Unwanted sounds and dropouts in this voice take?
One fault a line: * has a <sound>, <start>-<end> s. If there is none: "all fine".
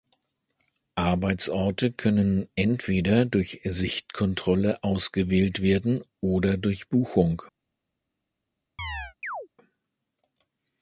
* has a chirp, 8.8-9.5 s